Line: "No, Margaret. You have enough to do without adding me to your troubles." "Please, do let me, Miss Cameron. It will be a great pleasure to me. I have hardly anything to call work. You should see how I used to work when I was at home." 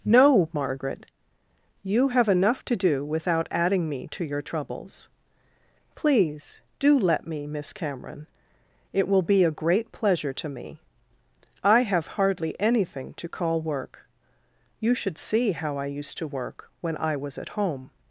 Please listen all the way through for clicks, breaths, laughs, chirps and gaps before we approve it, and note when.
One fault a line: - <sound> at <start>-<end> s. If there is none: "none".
none